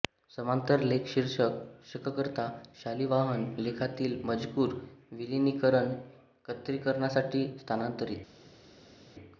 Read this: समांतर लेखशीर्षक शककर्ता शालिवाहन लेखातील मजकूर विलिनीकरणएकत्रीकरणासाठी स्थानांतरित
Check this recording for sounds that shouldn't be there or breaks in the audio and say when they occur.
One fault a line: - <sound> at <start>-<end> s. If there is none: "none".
none